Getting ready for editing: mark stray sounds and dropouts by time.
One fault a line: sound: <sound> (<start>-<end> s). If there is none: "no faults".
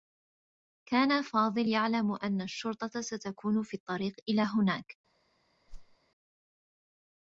sound: whoosh (5.7-6.0 s)